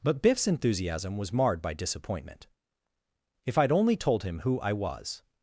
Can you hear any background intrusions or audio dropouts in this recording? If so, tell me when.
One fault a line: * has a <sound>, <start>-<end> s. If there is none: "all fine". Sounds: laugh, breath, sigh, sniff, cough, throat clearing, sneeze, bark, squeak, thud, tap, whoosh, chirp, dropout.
all fine